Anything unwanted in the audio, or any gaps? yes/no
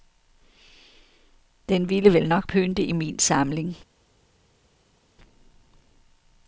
no